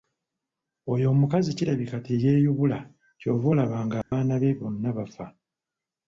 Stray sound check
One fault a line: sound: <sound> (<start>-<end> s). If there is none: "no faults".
sound: dropout (4.0-4.1 s)